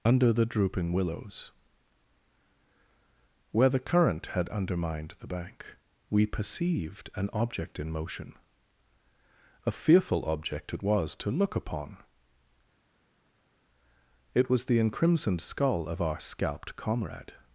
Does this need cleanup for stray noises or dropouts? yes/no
no